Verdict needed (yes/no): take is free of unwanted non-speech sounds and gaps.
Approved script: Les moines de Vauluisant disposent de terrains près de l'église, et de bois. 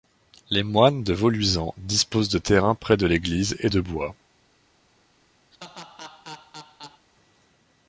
no